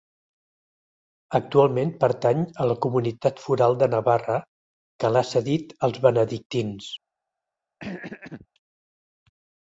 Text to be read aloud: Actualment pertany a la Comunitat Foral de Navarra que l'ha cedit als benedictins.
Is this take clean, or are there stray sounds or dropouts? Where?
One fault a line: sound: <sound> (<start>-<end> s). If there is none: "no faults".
sound: throat clearing (7.8-8.5 s)